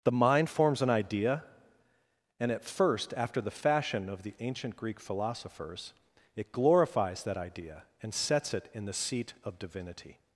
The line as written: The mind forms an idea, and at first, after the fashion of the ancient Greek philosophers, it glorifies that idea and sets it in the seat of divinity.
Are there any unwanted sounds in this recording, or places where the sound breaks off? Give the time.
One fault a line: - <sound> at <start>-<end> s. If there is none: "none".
none